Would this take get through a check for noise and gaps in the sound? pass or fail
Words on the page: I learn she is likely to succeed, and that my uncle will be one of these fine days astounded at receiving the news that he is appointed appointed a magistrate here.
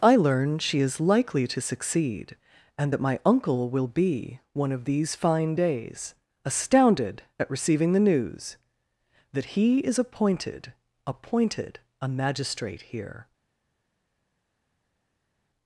pass